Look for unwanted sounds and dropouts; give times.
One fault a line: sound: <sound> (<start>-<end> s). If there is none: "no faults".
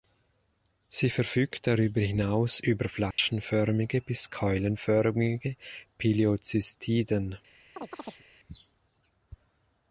sound: dropout (3.1-3.2 s)
sound: chirp (7.8-8.2 s)